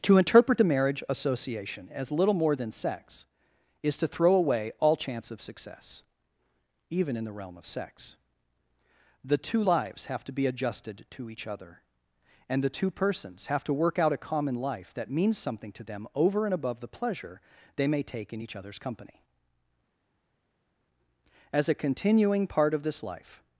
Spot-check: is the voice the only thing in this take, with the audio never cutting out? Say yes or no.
yes